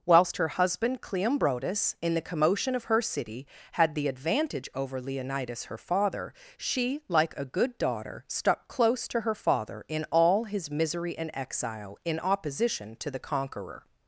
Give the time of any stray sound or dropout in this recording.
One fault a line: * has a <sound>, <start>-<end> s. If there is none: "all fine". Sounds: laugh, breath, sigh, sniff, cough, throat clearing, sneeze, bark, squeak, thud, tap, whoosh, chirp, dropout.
all fine